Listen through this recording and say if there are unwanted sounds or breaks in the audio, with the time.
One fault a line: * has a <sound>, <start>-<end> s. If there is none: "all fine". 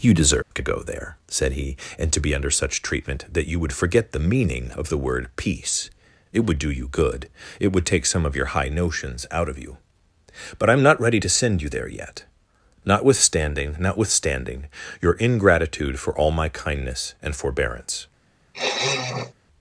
* has a dropout, 0.4-0.5 s
* has a sniff, 18.5-19.3 s